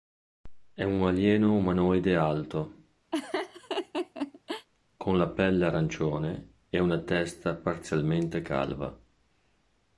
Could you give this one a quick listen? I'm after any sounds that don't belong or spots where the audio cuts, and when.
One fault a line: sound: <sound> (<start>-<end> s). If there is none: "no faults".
sound: laugh (3.1-4.7 s)